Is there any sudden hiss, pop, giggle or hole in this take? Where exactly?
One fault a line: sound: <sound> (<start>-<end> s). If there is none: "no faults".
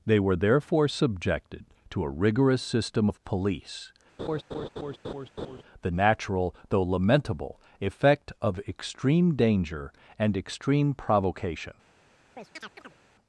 sound: laugh (4.2-5.6 s)
sound: chirp (12.4-13.0 s)